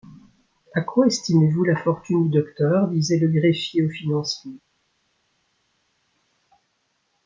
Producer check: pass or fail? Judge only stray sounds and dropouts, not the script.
pass